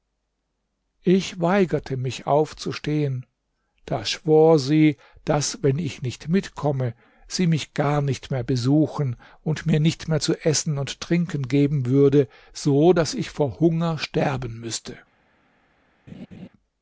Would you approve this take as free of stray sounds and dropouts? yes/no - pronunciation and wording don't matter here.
no